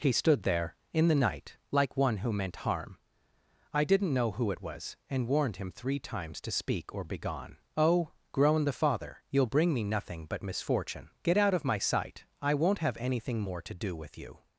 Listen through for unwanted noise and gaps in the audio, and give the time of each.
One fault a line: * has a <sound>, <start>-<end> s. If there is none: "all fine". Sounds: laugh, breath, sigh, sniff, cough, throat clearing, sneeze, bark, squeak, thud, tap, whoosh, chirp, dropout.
all fine